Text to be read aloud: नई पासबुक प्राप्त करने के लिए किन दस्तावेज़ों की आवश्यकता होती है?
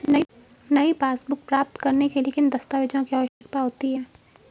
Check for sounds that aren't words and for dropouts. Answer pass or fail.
fail